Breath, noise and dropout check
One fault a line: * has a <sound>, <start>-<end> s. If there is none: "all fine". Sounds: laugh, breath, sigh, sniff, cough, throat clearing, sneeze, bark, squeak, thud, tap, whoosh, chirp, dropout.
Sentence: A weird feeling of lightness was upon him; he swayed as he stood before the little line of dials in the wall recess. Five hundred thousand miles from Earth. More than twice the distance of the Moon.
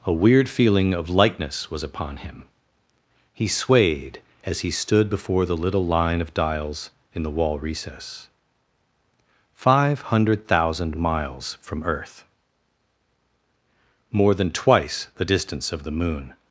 all fine